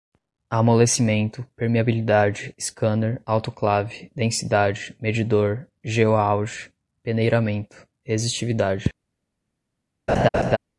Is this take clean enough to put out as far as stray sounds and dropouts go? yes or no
no